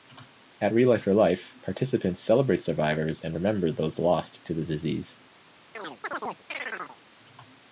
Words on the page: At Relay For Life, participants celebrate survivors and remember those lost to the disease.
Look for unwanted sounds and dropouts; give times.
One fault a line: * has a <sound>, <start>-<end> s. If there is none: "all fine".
* has a chirp, 5.7-7.0 s